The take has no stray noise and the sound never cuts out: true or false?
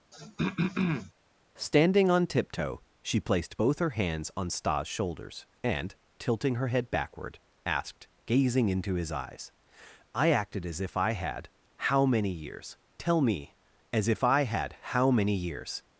false